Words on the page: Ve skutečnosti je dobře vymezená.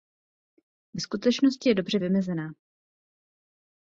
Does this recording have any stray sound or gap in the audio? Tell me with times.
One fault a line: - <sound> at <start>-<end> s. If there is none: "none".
none